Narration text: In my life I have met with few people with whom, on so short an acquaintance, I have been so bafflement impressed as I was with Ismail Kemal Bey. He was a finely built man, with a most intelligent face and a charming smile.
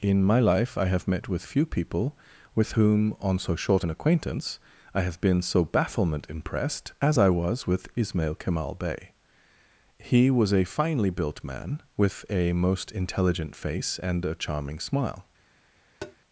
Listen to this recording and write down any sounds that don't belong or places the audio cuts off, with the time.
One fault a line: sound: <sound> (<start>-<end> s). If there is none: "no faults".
sound: tap (16.0-16.2 s)